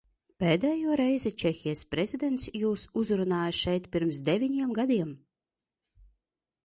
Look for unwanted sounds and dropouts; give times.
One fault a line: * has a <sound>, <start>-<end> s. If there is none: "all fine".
all fine